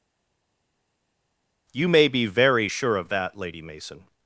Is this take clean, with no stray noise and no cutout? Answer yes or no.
yes